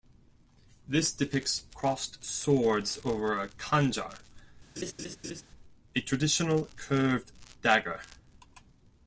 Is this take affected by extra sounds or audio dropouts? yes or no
yes